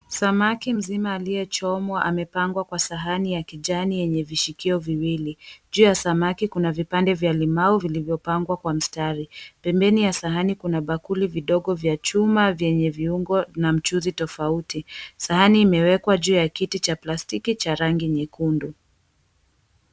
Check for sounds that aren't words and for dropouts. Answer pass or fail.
pass